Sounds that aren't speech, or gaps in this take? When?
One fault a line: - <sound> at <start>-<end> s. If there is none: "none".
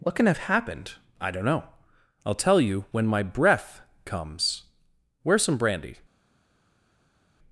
none